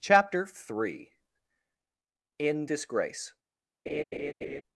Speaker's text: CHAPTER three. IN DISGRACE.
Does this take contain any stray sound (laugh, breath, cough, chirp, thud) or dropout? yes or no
yes